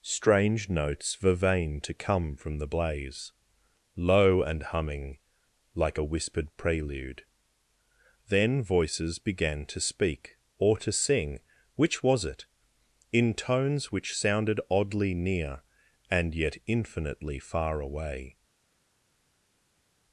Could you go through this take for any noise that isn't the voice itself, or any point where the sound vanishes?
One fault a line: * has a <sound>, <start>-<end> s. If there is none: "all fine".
all fine